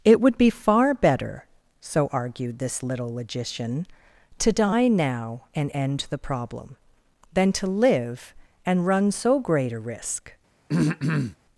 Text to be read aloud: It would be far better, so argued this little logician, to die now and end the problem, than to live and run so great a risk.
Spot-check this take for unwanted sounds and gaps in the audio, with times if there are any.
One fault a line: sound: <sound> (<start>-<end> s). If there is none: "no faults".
sound: throat clearing (10.7-11.4 s)